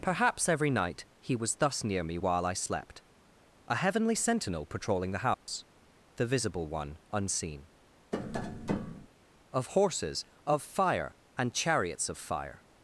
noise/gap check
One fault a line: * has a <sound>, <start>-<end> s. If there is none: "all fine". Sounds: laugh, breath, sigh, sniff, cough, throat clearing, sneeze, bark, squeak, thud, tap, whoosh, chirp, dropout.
* has a dropout, 5.3-5.5 s
* has a tap, 8.1-9.1 s